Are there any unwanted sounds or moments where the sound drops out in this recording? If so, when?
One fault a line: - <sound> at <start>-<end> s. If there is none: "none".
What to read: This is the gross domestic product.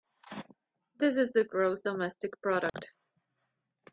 - dropout at 2.7-2.7 s